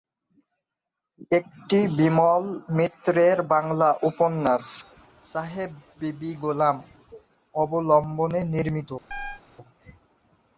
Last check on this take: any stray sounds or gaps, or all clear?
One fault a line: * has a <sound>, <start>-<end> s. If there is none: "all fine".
* has a chirp, 9.1-9.4 s